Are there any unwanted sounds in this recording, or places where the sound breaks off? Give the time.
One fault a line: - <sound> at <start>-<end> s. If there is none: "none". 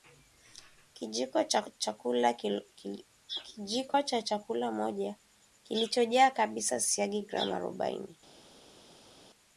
none